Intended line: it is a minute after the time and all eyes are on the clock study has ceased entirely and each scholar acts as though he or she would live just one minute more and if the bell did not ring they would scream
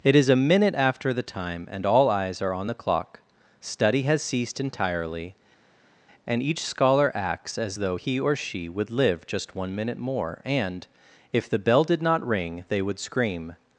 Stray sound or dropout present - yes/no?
no